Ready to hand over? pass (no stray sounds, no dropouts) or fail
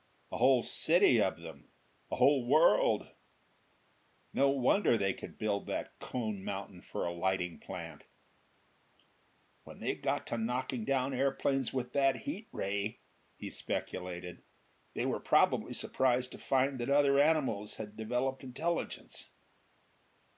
pass